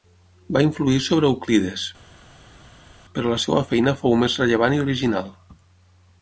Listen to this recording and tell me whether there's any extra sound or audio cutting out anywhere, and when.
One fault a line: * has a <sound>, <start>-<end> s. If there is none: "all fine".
all fine